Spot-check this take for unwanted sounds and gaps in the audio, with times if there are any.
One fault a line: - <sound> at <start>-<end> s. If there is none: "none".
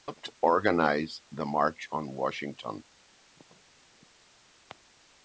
none